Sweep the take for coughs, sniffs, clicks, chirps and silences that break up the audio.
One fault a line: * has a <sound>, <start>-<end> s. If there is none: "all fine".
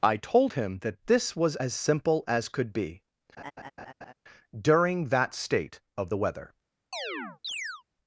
* has a laugh, 3.4-4.1 s
* has a chirp, 6.9-7.8 s